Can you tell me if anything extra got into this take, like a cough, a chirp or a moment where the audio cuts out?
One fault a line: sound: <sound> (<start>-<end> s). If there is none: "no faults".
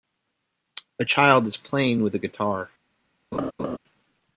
sound: laugh (3.3-3.8 s)